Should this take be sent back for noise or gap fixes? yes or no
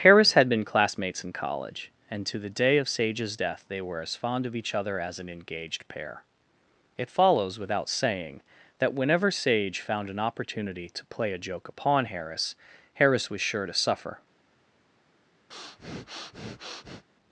yes